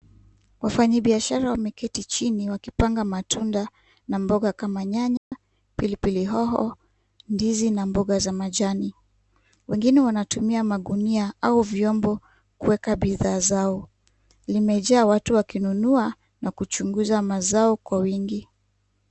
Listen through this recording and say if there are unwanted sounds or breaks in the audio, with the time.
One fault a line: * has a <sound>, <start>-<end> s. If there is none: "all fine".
* has a dropout, 5.2-5.3 s